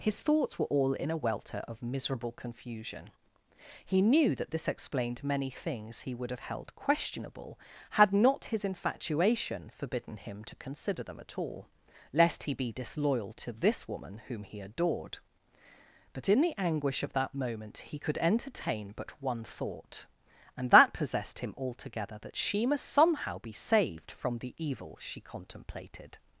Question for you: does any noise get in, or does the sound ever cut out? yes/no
no